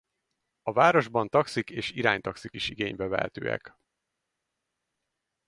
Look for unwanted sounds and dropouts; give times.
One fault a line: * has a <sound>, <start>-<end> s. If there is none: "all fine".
all fine